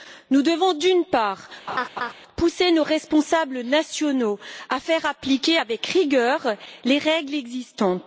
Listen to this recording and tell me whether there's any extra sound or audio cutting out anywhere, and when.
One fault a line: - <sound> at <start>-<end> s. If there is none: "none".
- laugh at 1.7-2.1 s